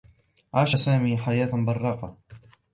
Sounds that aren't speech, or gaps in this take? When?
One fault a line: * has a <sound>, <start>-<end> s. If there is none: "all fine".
all fine